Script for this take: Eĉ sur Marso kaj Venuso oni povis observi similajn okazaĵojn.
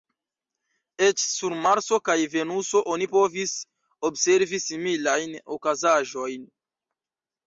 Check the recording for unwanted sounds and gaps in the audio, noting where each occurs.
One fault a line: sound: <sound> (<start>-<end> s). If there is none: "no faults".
no faults